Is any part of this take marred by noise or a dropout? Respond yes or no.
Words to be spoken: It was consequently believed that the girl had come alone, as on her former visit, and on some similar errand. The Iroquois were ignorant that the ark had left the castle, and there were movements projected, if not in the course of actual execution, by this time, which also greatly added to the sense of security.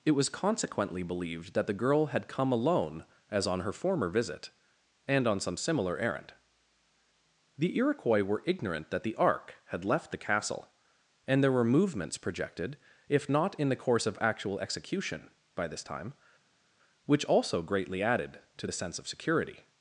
no